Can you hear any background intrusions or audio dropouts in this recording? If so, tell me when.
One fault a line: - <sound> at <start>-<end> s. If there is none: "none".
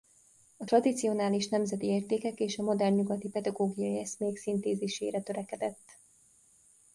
none